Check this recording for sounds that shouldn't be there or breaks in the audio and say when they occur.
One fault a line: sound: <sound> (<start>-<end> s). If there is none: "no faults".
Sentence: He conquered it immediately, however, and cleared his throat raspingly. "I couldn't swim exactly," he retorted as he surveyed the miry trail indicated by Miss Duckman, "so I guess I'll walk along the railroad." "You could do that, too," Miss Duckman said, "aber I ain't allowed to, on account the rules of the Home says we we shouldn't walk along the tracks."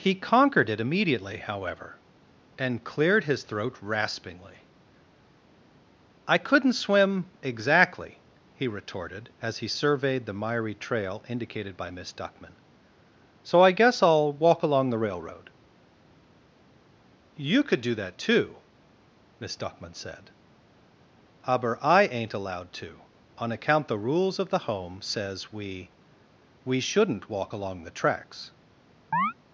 sound: chirp (29.1-29.3 s)